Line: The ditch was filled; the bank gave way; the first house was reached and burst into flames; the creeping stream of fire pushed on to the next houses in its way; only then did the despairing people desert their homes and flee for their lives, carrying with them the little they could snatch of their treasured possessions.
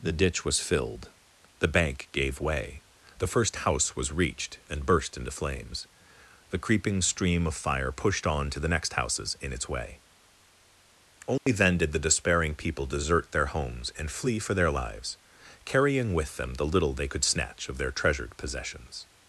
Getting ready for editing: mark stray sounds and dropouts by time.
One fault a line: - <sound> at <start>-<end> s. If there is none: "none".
- dropout at 11.4-11.5 s